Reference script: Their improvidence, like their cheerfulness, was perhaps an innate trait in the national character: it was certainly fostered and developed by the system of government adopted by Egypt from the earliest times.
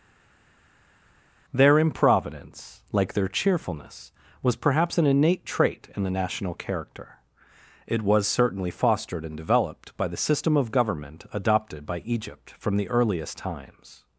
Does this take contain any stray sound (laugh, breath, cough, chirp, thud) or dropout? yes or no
no